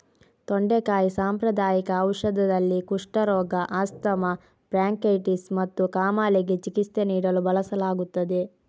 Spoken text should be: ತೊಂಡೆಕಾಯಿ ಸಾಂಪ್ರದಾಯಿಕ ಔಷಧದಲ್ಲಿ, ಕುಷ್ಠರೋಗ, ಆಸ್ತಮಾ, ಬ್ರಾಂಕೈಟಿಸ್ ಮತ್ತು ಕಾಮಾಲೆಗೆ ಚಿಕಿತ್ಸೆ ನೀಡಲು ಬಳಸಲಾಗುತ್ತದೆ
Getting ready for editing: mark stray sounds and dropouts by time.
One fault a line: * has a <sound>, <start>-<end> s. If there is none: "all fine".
all fine